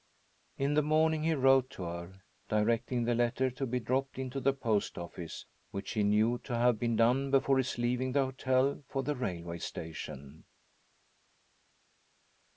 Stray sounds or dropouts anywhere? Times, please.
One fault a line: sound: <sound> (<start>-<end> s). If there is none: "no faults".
no faults